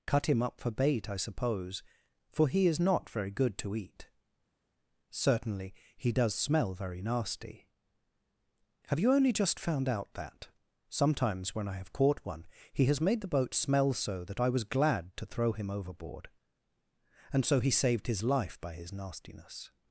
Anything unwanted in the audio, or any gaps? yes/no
no